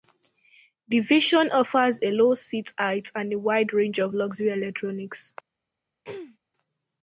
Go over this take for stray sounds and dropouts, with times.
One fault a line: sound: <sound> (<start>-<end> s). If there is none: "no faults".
sound: throat clearing (6.0-6.4 s)